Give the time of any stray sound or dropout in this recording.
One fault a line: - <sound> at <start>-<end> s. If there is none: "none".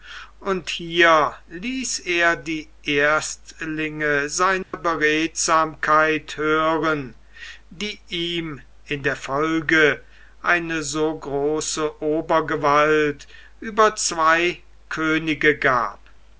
- dropout at 4.6-4.7 s